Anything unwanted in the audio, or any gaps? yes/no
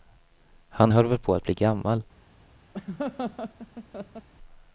yes